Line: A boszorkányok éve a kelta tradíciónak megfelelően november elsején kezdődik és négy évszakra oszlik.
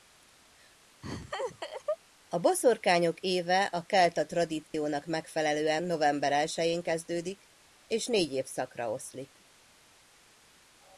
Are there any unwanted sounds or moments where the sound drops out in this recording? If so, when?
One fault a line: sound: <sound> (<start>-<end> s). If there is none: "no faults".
sound: laugh (1.0-2.0 s)
sound: dropout (4.7-4.7 s)